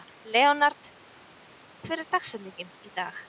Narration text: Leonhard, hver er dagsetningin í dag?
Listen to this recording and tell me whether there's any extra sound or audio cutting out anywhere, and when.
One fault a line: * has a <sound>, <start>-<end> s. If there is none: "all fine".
all fine